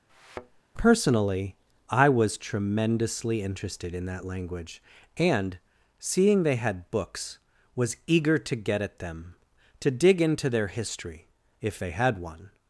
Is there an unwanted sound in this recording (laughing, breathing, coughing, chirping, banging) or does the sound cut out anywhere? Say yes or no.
yes